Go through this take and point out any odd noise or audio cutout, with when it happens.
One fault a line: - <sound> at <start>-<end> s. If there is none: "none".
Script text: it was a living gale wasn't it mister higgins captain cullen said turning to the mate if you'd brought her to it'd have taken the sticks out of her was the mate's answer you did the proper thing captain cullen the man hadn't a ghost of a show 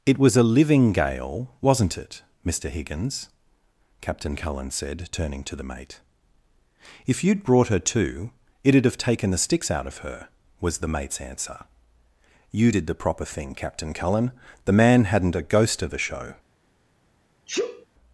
- sneeze at 17.5-17.9 s